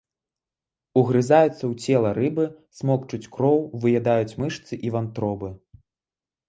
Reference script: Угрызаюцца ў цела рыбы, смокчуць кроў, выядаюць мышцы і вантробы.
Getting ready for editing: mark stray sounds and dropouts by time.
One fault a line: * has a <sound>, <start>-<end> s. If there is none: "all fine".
all fine